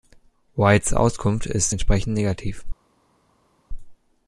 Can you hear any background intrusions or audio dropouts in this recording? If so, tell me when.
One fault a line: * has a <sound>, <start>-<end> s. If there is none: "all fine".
all fine